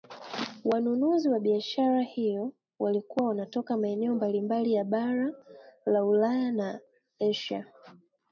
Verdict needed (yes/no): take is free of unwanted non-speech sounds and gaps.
yes